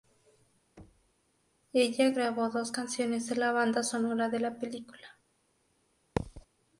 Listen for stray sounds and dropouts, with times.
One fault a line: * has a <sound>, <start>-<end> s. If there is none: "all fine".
* has a thud, 0.8-1.1 s
* has a thud, 6.2-6.5 s